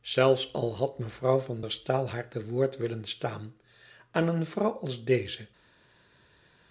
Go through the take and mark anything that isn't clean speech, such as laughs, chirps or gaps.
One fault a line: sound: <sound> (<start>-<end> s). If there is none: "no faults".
no faults